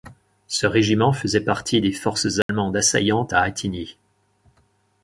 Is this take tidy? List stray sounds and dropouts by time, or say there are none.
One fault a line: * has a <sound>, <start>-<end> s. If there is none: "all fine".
* has a dropout, 2.4-2.5 s